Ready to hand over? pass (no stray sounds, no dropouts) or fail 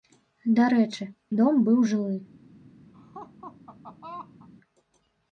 fail